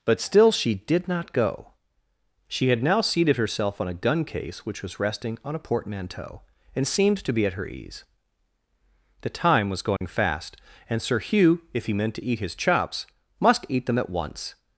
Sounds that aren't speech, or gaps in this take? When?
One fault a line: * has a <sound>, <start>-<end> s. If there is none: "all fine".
* has a dropout, 10.0-10.0 s